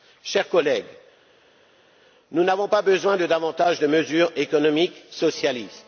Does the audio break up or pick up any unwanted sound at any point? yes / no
no